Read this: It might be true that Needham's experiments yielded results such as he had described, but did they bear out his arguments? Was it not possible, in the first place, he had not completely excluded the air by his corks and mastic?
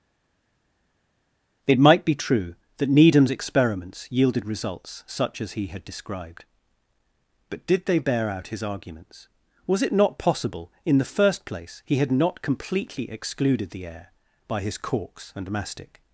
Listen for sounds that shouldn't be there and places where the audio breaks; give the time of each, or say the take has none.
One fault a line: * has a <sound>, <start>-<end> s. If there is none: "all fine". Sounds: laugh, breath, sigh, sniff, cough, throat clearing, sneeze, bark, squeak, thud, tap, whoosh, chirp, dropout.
all fine